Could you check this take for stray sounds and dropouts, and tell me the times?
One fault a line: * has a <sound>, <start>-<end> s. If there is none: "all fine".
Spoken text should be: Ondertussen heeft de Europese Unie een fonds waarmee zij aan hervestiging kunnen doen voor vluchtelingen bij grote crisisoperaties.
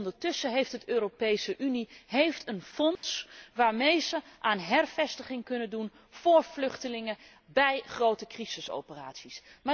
* has a dropout, 3.0-3.0 s